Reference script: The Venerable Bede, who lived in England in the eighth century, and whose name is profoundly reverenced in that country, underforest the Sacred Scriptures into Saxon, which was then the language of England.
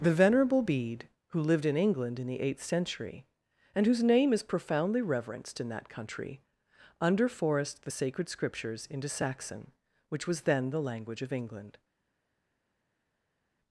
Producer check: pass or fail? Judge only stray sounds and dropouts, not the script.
pass